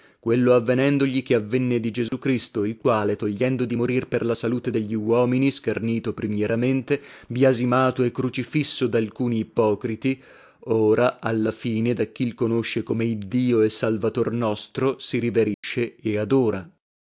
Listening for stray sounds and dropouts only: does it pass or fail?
fail